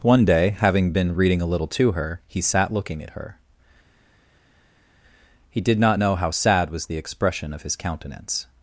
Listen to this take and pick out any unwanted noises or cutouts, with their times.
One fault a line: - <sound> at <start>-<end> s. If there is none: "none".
none